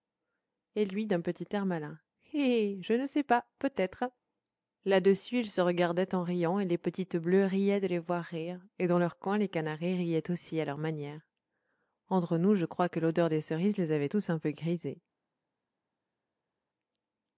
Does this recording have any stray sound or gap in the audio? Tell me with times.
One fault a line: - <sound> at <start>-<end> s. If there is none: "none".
none